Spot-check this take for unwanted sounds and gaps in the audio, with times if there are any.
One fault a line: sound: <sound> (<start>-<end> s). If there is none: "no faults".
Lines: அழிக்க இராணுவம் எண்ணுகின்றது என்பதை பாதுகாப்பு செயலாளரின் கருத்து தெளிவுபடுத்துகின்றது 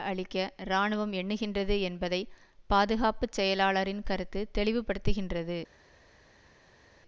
no faults